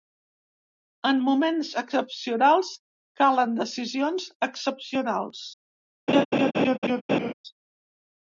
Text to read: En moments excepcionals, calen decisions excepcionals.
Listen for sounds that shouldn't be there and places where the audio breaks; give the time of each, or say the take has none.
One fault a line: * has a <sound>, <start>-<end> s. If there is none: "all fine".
* has a laugh, 6.1-7.3 s